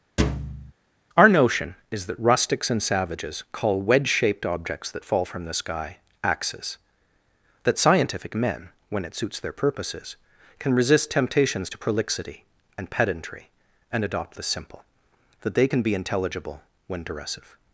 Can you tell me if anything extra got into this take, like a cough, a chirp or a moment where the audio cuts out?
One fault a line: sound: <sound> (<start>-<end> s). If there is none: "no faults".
sound: thud (0.2-0.7 s)